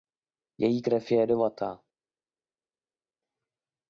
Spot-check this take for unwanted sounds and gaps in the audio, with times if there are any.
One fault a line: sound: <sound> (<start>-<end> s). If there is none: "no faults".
no faults